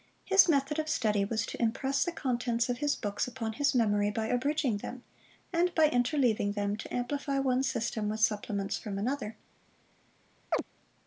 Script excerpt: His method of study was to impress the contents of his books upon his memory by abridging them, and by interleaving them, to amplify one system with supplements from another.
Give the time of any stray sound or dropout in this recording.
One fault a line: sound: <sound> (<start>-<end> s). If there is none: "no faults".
sound: chirp (10.5-10.6 s)